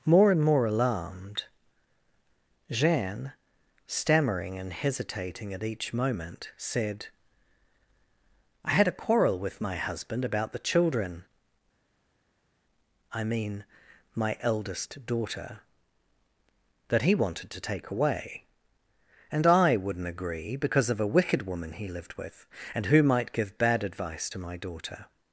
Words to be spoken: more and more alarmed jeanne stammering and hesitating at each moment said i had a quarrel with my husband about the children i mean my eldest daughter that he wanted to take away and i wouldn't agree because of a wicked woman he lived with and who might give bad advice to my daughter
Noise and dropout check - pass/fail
pass